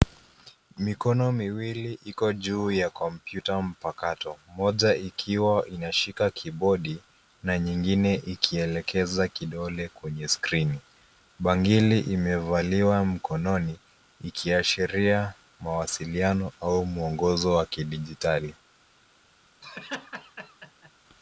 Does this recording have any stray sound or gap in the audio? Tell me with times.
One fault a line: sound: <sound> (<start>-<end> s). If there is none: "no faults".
sound: laugh (19.6-20.9 s)